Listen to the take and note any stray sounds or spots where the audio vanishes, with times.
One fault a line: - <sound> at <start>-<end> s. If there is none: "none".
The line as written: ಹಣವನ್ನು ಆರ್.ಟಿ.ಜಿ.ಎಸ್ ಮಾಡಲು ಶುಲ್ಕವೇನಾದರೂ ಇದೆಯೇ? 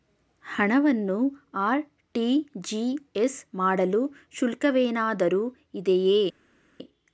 none